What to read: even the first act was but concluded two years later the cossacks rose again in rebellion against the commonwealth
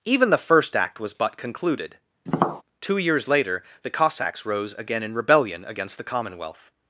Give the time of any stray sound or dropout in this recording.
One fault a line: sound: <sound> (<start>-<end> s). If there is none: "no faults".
sound: tap (2.3-2.6 s)